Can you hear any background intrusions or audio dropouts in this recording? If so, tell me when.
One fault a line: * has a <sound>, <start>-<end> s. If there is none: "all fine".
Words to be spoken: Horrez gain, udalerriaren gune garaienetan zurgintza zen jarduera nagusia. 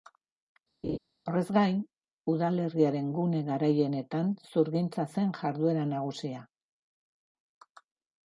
* has a laugh, 0.8-1.0 s